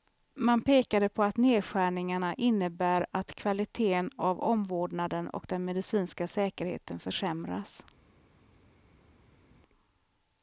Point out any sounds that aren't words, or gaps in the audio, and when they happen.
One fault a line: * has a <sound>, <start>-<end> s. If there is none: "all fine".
all fine